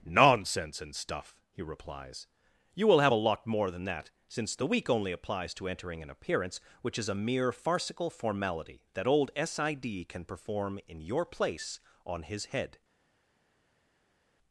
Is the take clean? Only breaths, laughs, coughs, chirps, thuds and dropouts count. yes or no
yes